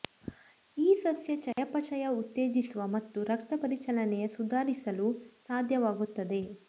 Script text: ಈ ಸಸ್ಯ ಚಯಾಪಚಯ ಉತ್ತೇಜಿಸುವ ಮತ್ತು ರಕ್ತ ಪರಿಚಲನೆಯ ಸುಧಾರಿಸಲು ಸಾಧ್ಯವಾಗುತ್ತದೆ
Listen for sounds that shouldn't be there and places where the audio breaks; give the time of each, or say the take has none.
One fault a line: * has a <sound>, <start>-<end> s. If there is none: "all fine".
* has a dropout, 1.5-1.6 s